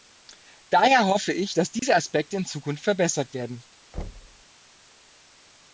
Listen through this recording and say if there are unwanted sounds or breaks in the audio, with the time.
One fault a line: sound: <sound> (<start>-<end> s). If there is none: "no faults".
sound: dropout (1.8-1.8 s)
sound: thud (3.9-4.4 s)